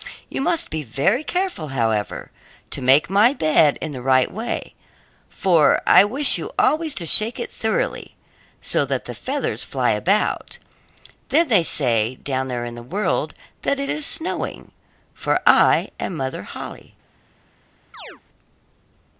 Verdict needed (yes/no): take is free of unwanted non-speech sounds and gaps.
no